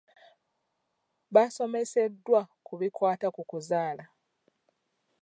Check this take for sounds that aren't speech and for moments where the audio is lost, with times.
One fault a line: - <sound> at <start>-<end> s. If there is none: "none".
none